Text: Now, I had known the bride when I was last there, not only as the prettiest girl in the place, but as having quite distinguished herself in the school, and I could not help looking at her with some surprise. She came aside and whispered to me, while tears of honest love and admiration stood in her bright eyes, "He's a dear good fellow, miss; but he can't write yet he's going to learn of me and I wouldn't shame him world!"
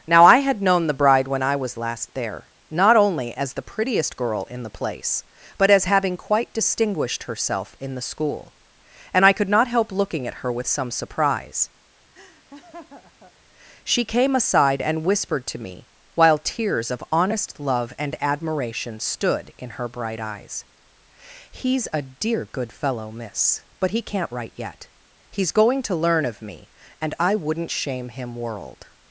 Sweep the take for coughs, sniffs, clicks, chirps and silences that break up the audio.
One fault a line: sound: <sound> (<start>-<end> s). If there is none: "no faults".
sound: laugh (12.1-13.3 s)